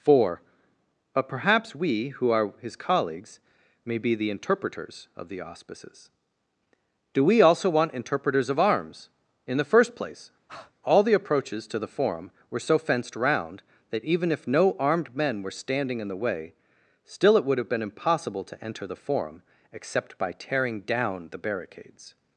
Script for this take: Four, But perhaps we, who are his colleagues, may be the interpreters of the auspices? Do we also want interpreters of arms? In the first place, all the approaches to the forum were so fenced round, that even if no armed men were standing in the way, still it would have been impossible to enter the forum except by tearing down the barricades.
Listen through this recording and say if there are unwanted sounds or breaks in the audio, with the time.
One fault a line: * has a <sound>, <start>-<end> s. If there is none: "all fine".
* has a breath, 10.5-10.7 s